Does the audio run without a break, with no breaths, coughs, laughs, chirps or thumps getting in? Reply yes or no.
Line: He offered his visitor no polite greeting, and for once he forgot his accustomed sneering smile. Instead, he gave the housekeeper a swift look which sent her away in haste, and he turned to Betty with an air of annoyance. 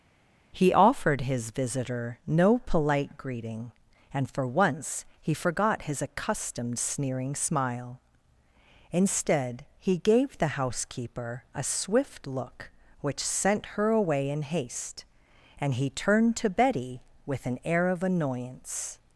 yes